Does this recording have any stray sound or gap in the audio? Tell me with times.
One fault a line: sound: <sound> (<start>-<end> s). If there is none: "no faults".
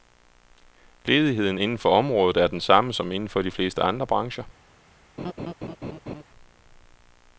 sound: laugh (5.2-6.2 s)